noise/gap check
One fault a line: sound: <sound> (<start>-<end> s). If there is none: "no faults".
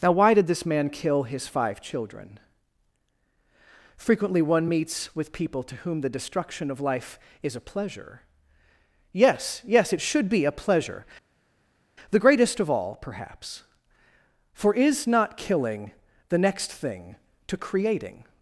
no faults